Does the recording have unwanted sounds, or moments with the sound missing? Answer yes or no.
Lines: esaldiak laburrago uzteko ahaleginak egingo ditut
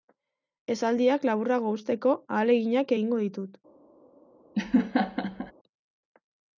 yes